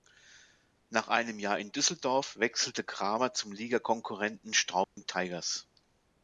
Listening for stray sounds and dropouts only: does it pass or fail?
fail